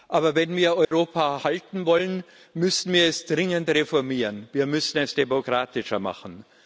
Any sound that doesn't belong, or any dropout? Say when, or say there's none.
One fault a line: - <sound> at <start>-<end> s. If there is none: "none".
- dropout at 0.8-0.9 s